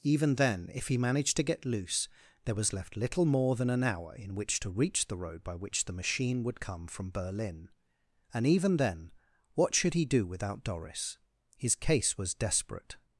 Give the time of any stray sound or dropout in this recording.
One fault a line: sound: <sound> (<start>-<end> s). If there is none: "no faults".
no faults